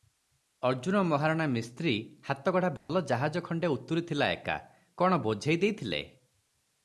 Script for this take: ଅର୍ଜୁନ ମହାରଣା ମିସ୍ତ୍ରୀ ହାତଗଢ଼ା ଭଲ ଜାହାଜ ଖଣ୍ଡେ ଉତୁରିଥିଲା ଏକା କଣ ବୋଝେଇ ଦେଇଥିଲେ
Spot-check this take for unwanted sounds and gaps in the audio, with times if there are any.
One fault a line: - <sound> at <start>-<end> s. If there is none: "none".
- dropout at 2.8-2.9 s